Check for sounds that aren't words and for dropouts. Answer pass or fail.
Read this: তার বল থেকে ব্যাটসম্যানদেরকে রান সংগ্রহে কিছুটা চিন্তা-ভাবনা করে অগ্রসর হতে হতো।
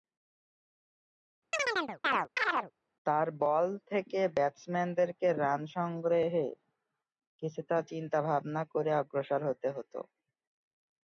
fail